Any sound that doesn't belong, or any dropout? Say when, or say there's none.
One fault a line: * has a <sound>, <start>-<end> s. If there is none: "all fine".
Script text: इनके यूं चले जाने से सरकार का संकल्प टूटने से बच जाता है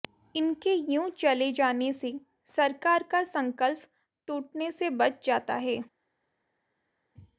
all fine